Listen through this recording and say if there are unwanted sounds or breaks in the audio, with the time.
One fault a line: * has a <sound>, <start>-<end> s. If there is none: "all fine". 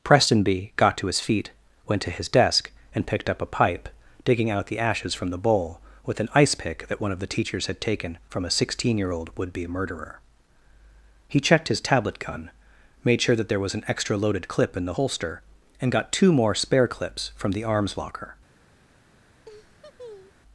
* has a laugh, 19.4-20.4 s